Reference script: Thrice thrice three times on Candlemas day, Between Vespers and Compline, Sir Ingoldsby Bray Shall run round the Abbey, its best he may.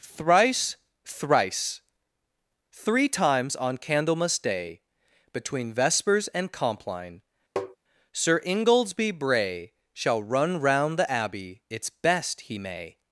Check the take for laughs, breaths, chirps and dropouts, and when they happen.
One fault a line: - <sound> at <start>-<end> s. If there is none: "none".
- tap at 7.6-7.8 s